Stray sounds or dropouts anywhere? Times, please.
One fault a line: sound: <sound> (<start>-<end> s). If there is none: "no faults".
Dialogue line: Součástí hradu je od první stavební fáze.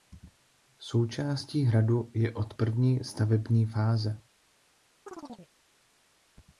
sound: chirp (5.1-5.5 s)